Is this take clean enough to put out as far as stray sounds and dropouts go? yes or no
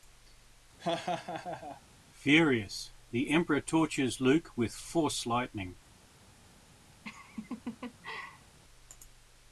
no